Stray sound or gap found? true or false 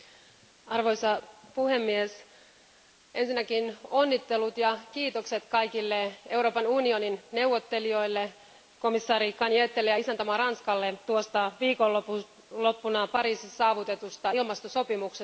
false